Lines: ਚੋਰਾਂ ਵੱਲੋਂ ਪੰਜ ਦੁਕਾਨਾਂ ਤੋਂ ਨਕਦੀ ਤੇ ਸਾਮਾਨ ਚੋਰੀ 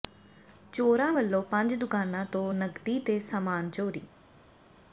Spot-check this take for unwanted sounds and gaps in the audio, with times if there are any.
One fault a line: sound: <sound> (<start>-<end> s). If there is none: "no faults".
no faults